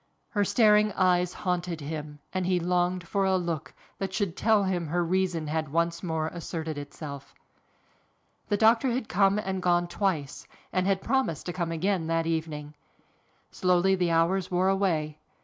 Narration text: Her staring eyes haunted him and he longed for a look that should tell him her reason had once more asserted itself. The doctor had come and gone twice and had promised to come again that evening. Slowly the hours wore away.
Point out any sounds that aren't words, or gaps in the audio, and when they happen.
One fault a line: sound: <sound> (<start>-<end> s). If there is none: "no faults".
no faults